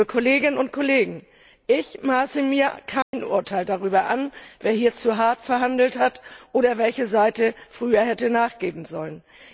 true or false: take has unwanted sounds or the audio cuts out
true